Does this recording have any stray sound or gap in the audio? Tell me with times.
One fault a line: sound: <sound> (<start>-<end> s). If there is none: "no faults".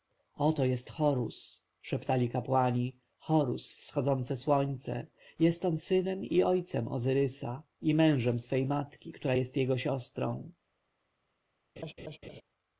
sound: laugh (11.8-12.4 s)